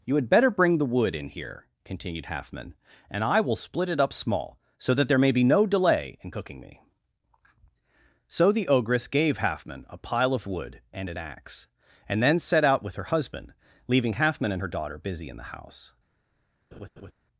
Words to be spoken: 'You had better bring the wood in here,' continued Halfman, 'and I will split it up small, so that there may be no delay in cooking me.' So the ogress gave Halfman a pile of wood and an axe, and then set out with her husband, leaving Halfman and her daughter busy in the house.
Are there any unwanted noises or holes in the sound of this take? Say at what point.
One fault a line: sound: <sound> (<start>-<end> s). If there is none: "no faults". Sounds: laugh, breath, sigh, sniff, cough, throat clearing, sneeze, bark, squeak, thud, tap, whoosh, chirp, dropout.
sound: laugh (16.7-17.1 s)